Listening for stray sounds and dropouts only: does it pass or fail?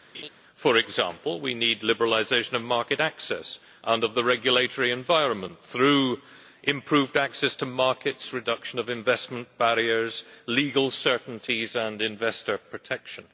fail